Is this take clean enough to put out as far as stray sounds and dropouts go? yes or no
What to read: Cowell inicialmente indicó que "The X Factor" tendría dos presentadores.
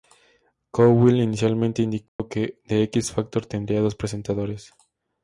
no